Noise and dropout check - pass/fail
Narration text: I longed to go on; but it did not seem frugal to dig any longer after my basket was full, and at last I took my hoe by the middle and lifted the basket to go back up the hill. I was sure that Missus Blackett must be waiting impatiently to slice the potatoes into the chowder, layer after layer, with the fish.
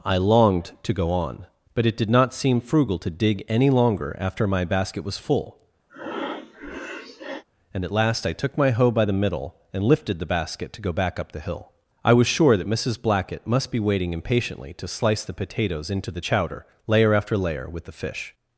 fail